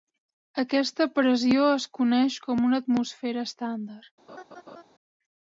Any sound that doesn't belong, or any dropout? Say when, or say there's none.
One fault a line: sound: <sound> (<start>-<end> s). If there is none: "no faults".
sound: laugh (4.3-4.8 s)